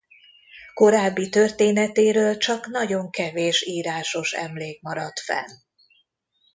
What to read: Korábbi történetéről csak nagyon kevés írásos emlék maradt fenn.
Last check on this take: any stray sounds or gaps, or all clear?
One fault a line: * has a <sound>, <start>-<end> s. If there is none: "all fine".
all fine